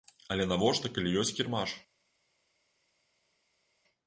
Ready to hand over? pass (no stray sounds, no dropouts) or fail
pass